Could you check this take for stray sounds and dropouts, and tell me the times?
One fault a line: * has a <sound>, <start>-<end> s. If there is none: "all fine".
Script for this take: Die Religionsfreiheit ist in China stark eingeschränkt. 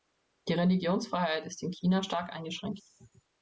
all fine